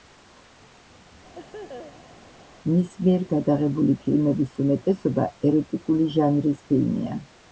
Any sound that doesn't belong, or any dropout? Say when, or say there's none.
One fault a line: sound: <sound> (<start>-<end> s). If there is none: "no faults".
sound: laugh (1.3-2.2 s)